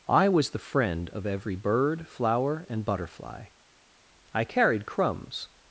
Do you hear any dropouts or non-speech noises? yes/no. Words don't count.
no